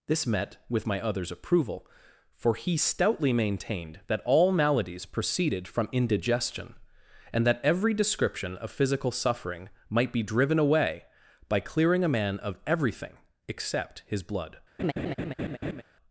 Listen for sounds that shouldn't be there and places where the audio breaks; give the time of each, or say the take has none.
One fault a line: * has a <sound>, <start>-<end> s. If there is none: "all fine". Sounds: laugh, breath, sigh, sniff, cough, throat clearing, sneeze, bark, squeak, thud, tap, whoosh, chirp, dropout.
* has a laugh, 14.8-15.8 s